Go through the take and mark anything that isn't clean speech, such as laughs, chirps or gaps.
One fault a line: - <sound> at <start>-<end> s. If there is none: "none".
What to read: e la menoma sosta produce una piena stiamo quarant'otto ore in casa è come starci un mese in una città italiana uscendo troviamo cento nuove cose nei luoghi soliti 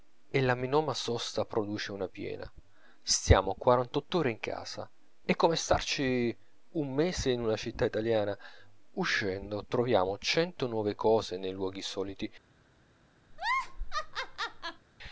- laugh at 13.3-14.9 s